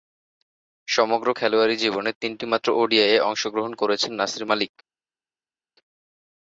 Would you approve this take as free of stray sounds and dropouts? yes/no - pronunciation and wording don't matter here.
yes